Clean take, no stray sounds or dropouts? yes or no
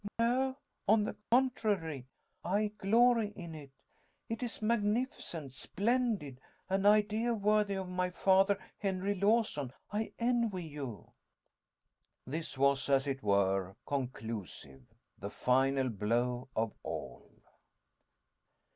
no